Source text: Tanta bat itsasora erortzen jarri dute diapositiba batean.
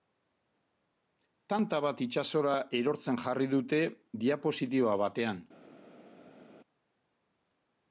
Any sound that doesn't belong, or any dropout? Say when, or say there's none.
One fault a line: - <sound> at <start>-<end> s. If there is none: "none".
none